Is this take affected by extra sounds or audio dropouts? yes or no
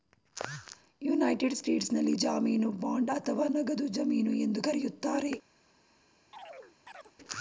yes